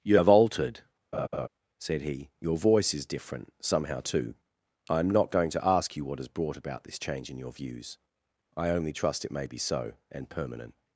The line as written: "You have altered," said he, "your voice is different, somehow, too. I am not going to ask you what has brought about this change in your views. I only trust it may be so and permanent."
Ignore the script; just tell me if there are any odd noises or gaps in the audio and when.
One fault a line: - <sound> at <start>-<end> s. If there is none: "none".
- laugh at 1.1-1.5 s